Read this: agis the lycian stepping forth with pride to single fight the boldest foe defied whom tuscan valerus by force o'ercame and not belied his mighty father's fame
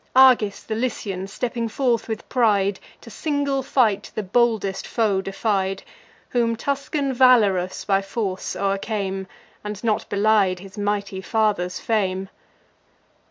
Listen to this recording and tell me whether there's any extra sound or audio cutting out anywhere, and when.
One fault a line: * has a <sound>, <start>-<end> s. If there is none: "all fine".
all fine